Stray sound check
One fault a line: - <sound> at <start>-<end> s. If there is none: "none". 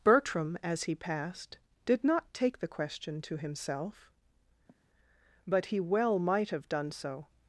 - sigh at 4.7-4.8 s